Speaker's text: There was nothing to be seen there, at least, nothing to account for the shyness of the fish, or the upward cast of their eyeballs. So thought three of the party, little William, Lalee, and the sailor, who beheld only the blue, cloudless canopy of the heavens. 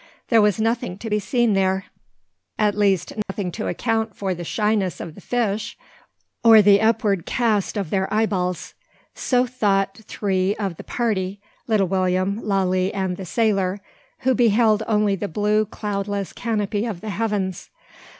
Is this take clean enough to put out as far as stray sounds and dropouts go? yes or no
no